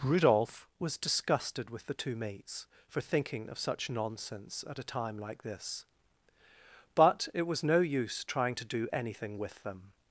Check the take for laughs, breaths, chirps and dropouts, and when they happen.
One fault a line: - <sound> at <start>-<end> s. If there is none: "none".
none